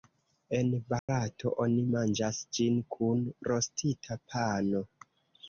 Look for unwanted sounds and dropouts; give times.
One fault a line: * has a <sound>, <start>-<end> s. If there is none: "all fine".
* has a dropout, 1.0-1.1 s